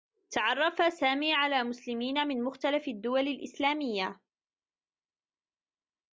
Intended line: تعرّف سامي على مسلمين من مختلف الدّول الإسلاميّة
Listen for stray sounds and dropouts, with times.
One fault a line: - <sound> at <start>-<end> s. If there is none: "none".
none